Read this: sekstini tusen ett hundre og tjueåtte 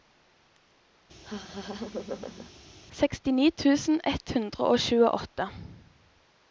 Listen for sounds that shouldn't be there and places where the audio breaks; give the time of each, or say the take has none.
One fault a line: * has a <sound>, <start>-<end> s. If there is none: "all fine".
* has a laugh, 1.2-2.5 s